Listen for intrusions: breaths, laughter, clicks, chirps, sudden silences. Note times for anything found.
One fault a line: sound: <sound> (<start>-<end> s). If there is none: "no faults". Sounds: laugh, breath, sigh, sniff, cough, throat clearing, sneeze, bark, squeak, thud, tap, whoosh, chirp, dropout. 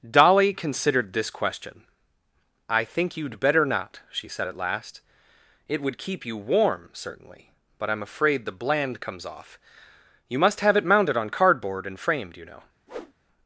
sound: whoosh (12.9-13.1 s)